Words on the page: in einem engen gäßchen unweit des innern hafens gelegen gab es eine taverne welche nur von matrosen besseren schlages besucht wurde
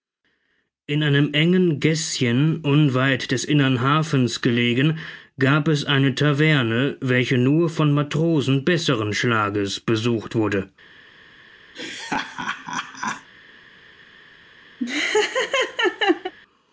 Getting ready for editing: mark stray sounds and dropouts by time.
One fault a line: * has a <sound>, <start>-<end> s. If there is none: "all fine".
* has a laugh, 11.7-13.3 s
* has a laugh, 14.8-16.3 s